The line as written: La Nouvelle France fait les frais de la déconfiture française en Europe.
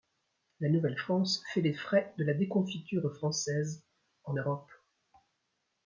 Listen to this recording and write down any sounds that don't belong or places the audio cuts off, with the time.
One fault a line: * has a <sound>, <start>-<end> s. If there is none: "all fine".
all fine